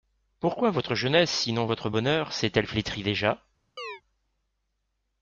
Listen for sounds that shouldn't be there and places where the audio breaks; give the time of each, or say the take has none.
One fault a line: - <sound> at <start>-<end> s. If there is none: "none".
- chirp at 3.8-4.0 s